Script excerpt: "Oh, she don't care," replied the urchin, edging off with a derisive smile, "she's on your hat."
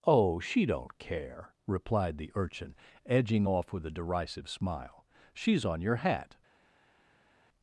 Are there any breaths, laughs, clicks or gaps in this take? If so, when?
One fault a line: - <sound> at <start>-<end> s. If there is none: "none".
none